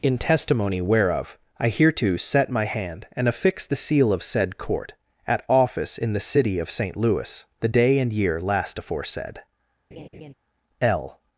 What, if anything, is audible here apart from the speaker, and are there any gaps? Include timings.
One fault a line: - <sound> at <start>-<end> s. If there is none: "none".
- laugh at 9.9-10.3 s